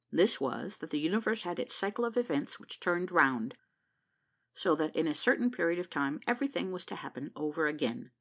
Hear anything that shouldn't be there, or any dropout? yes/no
no